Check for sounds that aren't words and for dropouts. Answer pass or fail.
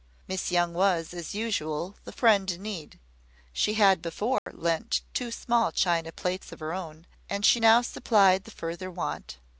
fail